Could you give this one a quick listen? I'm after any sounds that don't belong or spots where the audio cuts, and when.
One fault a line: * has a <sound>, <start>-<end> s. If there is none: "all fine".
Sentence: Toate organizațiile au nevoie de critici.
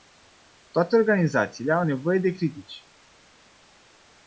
all fine